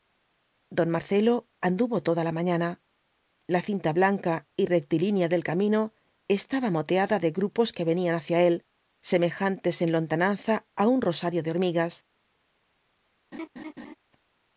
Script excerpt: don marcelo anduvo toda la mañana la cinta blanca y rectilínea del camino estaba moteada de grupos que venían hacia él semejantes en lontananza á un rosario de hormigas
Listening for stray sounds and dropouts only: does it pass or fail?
fail